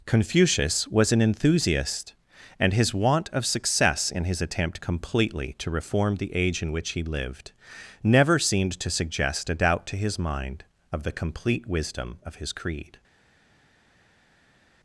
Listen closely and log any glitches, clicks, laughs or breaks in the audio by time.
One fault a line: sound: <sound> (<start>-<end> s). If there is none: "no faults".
no faults